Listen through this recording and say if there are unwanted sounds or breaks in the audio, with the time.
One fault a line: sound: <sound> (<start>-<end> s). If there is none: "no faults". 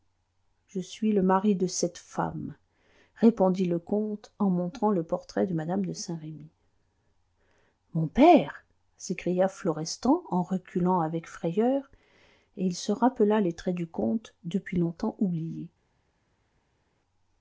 no faults